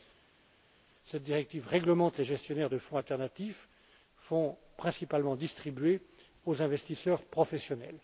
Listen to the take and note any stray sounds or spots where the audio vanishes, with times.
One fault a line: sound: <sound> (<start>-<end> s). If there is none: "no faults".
no faults